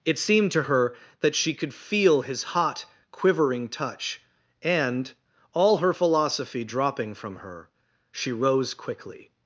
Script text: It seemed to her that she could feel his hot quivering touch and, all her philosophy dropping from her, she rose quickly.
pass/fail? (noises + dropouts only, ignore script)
pass